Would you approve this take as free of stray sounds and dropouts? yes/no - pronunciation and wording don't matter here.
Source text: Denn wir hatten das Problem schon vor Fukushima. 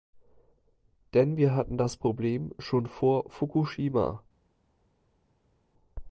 yes